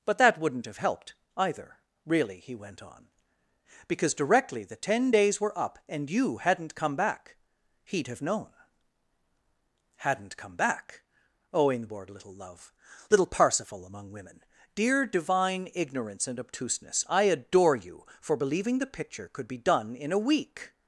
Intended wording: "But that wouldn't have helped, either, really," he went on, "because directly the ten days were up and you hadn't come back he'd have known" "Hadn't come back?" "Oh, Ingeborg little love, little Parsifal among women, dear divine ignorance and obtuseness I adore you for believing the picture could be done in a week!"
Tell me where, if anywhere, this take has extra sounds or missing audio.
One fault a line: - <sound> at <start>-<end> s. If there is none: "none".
none